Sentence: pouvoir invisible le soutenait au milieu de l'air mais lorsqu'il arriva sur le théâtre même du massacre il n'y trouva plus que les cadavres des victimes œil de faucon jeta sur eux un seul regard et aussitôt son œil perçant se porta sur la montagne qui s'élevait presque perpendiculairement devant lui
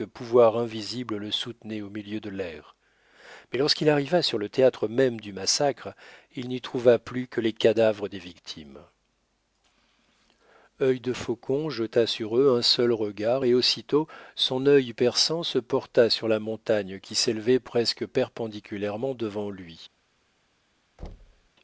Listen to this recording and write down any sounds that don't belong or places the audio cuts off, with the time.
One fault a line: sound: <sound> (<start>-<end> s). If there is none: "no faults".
sound: thud (21.0-21.5 s)